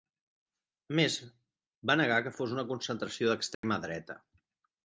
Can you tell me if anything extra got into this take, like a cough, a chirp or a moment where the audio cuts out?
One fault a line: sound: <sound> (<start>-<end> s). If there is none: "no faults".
sound: dropout (3.5-3.6 s)